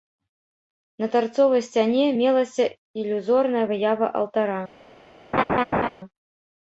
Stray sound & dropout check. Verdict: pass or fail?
fail